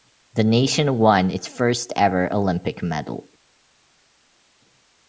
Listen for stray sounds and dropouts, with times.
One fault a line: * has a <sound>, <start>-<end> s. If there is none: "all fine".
all fine